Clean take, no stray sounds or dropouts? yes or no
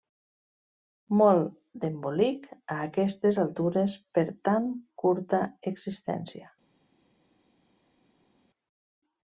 yes